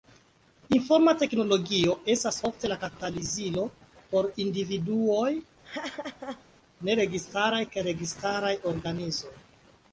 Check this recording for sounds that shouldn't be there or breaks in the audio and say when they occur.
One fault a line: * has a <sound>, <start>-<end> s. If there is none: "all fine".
* has a laugh, 5.6-6.4 s